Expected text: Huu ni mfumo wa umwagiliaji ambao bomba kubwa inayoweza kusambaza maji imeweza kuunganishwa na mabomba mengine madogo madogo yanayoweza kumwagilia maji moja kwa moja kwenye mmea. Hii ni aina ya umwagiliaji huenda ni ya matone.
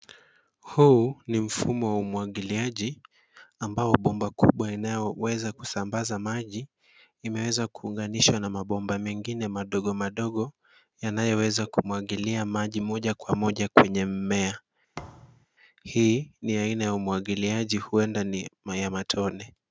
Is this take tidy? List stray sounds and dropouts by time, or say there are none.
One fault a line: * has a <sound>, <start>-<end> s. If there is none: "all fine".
* has a thud, 14.9-15.5 s